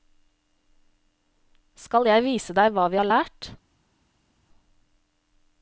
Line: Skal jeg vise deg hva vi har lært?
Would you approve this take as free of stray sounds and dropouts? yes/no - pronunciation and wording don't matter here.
yes